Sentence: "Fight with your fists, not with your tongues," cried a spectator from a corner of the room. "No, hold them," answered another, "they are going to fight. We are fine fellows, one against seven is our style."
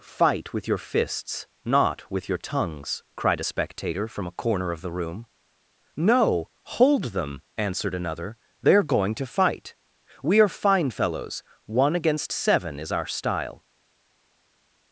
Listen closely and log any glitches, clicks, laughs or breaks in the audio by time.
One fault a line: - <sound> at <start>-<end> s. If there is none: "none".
none